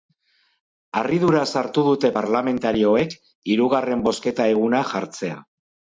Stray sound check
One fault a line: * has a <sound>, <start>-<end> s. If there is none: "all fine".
all fine